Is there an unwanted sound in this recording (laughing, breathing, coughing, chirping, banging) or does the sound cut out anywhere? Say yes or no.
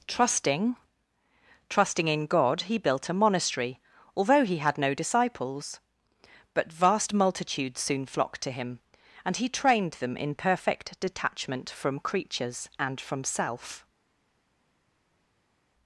no